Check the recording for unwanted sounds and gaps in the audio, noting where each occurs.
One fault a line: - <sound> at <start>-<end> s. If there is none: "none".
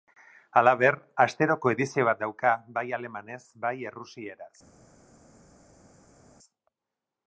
none